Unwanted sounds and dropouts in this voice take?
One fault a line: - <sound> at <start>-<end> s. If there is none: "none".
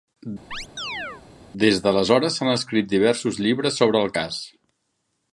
- chirp at 0.5-1.2 s